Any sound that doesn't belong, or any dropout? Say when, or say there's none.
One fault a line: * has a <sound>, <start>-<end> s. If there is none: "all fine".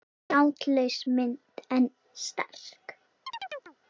* has a chirp, 3.3-3.8 s